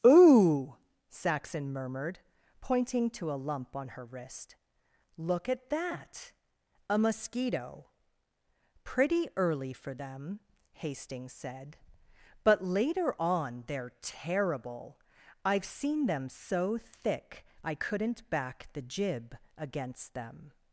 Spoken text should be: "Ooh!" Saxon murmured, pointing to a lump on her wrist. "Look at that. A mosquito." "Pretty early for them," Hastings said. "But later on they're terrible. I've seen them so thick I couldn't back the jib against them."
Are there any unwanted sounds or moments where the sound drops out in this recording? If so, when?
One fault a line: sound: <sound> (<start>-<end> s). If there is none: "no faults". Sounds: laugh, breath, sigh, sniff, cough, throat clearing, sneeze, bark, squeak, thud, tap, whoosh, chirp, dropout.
no faults